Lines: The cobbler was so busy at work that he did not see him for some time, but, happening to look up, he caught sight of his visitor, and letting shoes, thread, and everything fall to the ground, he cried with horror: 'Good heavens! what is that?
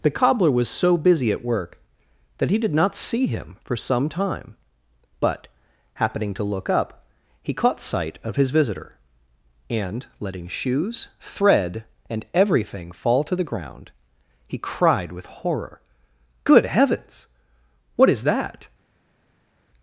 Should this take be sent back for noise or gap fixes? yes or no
no